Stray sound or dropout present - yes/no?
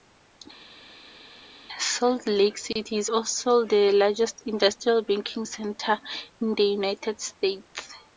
no